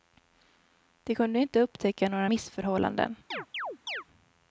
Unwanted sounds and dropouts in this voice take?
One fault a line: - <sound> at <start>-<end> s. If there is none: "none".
- chirp at 3.3-4.0 s